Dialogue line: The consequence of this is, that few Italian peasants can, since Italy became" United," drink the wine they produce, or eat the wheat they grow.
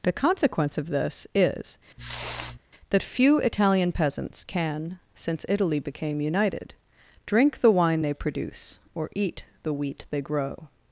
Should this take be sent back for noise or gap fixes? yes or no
yes